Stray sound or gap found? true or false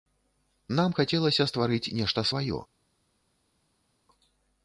false